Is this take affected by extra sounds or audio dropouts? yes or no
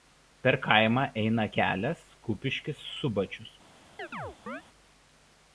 yes